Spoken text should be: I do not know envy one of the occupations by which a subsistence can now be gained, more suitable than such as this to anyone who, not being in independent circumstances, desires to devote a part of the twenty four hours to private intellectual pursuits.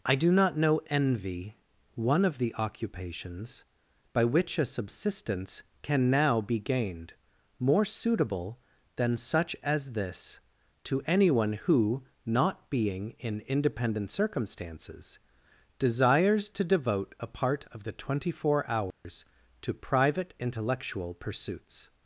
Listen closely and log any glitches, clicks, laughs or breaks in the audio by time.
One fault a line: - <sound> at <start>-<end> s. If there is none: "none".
- dropout at 18.9-19.0 s